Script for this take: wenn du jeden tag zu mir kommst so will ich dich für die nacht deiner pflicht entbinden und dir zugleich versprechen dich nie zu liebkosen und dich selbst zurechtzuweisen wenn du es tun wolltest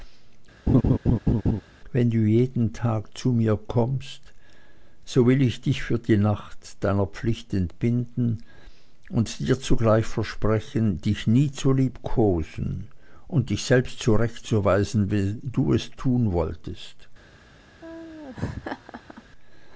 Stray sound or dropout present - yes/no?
yes